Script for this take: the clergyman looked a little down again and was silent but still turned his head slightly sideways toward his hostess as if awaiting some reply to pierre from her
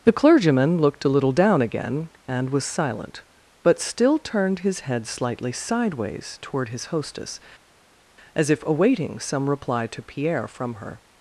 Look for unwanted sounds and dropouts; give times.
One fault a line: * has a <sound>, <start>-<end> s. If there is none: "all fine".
all fine